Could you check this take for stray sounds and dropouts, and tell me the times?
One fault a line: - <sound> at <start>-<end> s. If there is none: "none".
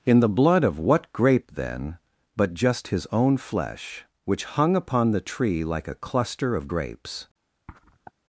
- sniff at 7.7-8.1 s